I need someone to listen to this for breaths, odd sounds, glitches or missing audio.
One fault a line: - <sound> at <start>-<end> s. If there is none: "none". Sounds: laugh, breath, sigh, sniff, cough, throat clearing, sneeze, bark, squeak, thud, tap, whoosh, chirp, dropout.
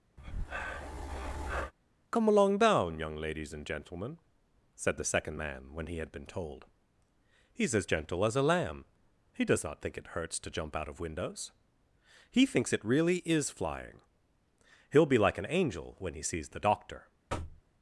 - breath at 0.2-1.7 s
- thud at 17.3-17.6 s